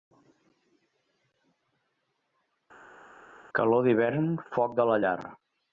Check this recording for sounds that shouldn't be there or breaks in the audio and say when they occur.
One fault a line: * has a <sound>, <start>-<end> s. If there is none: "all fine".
all fine